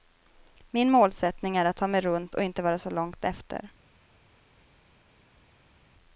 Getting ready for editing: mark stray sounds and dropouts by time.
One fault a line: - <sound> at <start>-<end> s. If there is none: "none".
none